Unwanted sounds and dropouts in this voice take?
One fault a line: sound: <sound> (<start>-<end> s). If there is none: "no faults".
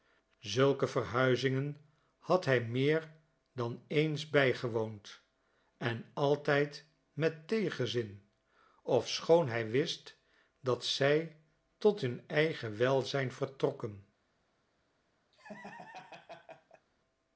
sound: laugh (15.3-16.9 s)